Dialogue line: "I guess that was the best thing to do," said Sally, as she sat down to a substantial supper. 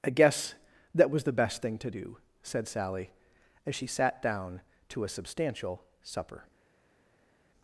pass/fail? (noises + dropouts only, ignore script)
pass